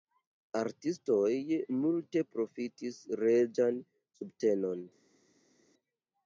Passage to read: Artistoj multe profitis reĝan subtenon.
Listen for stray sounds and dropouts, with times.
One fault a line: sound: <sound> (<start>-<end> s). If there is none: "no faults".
no faults